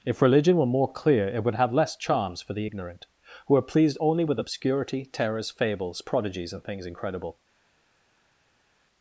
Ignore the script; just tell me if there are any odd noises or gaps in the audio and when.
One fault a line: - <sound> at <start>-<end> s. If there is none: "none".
none